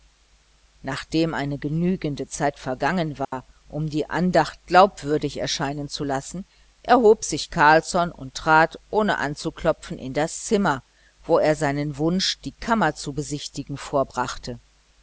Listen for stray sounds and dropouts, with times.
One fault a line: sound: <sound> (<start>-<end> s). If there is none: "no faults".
sound: dropout (3.2-3.3 s)